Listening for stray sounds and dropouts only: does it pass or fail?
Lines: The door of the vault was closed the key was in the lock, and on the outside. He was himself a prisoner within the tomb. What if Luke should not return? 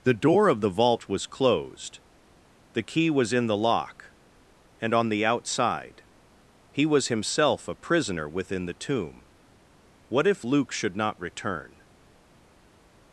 pass